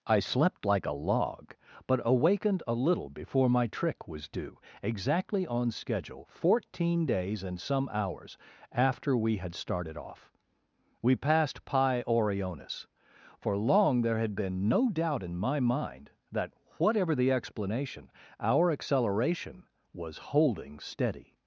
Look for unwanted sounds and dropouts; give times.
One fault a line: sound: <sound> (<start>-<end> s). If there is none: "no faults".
no faults